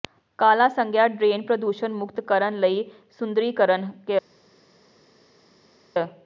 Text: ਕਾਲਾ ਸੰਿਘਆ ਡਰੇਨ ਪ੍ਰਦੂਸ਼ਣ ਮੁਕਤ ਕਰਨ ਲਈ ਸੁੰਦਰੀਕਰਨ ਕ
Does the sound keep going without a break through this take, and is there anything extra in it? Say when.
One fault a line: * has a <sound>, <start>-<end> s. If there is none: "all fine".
all fine